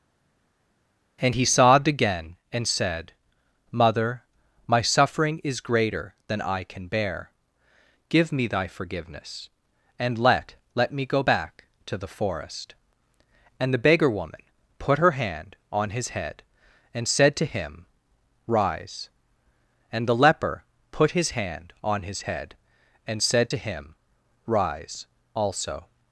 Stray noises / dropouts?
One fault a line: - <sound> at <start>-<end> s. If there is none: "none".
none